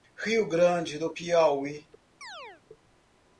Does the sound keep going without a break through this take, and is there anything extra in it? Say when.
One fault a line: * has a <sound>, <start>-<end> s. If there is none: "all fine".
* has a chirp, 2.2-2.6 s